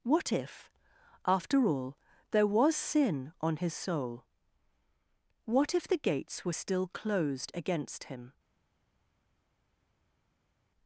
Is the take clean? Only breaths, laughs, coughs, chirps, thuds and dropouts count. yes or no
yes